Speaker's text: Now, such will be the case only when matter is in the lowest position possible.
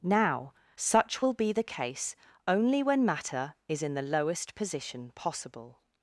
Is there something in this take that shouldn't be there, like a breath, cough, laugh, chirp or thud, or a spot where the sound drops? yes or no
no